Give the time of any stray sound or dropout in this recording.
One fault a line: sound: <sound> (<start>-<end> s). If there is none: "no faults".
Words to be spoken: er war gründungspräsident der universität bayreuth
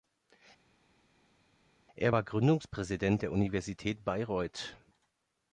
no faults